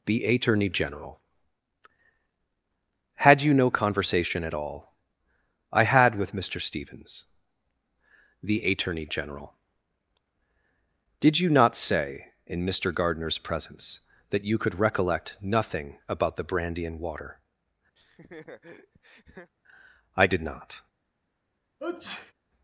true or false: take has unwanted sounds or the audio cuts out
true